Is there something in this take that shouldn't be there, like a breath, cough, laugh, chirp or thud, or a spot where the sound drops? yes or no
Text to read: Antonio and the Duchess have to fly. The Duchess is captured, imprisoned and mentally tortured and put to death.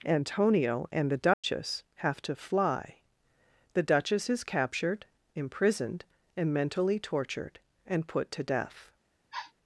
yes